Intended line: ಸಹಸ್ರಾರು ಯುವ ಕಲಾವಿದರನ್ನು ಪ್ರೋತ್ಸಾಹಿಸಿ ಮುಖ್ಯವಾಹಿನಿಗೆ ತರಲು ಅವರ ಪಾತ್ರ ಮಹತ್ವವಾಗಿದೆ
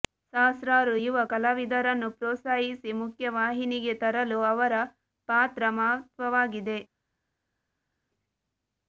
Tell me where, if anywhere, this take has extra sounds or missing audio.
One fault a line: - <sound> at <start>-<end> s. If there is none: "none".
none